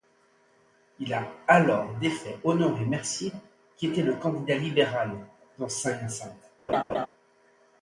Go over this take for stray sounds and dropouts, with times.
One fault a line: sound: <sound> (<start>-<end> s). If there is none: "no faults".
sound: laugh (6.7-7.1 s)